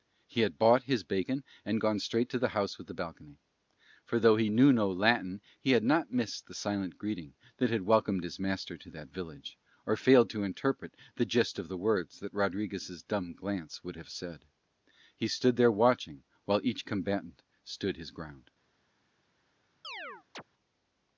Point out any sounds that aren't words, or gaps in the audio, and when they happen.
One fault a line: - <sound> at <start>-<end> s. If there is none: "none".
- chirp at 19.8-20.4 s